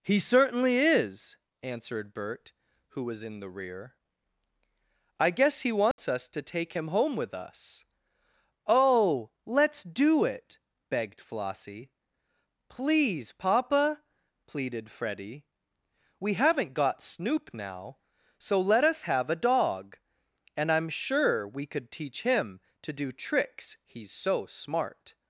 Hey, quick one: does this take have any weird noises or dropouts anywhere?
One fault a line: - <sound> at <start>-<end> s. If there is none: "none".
- dropout at 5.9-6.0 s